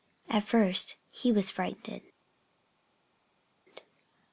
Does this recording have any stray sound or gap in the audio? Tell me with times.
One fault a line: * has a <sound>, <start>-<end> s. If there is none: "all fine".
all fine